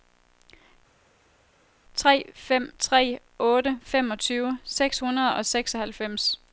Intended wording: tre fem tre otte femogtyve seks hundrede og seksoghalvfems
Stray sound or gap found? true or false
false